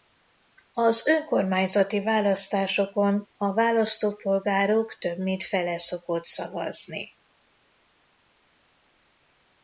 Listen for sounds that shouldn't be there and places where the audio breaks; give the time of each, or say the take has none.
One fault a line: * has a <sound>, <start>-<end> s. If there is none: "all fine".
all fine